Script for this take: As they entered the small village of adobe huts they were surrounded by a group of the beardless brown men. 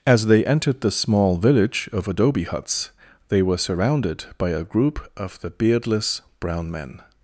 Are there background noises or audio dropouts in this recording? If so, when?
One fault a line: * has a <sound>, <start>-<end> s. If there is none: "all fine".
all fine